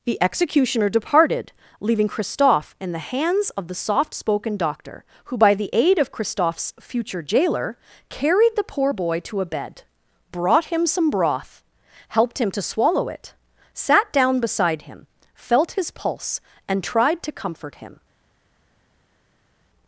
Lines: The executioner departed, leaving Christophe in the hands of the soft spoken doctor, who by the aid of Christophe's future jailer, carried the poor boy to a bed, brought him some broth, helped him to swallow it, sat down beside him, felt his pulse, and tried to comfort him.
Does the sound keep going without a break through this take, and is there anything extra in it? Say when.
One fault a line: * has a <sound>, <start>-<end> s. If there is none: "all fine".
all fine